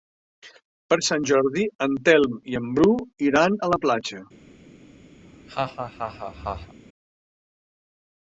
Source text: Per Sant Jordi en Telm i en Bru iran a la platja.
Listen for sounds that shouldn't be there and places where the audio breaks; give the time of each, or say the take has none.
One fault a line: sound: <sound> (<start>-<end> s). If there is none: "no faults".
sound: laugh (5.2-6.7 s)